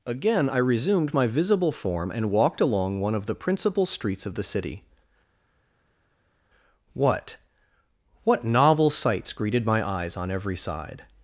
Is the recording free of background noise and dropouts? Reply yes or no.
yes